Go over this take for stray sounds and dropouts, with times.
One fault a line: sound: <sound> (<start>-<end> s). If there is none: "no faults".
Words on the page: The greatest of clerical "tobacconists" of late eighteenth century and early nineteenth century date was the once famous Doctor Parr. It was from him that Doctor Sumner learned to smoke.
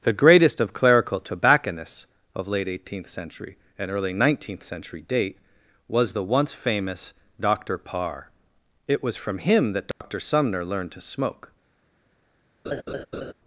sound: dropout (9.9-10.0 s)
sound: laugh (12.6-13.3 s)